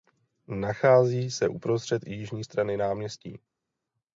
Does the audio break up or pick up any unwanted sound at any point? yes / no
no